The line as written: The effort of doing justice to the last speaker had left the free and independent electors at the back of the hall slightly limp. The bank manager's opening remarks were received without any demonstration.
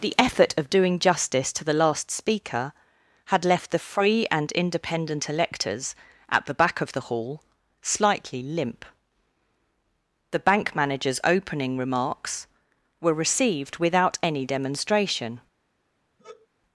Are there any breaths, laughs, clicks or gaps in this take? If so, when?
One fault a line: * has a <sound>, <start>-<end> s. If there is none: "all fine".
* has a sigh, 16.2-16.5 s